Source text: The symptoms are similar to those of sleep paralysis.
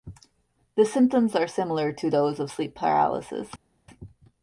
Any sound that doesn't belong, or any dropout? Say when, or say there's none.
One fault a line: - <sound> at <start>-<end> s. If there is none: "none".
none